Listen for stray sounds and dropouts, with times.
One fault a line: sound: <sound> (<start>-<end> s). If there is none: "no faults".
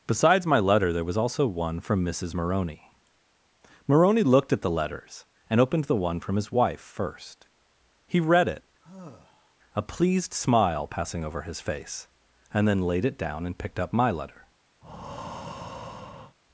sound: sigh (8.8-9.6 s)
sound: breath (14.8-16.4 s)